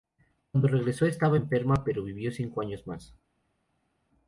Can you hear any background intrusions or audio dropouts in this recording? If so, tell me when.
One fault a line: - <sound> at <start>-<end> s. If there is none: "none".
none